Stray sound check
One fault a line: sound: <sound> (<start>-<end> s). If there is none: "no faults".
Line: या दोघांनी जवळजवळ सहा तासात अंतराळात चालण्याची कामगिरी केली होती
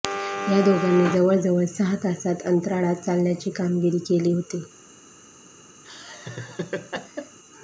sound: laugh (5.8-7.4 s)